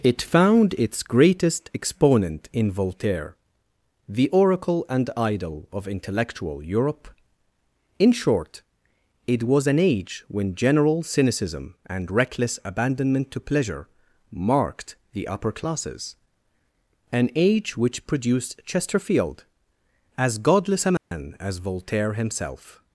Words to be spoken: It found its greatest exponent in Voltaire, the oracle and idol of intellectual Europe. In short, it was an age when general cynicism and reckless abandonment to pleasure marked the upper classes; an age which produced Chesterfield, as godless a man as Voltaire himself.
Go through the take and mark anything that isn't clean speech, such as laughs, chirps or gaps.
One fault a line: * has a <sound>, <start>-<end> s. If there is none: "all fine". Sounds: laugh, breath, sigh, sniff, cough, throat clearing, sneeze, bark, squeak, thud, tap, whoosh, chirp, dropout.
* has a dropout, 21.0-21.1 s